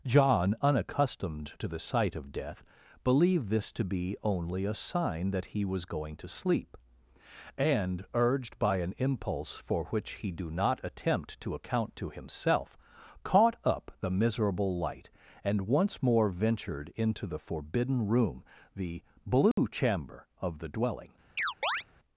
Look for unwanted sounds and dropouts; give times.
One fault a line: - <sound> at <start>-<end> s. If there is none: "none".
- dropout at 19.5-19.6 s
- chirp at 21.4-21.8 s